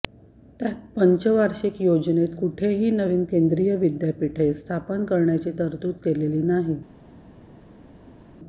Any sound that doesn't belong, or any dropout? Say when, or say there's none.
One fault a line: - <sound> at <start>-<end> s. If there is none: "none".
none